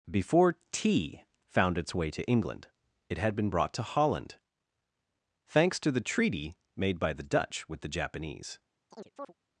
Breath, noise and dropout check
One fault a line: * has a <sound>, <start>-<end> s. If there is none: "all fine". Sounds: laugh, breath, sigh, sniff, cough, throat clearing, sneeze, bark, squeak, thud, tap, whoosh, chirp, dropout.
* has a chirp, 8.9-9.3 s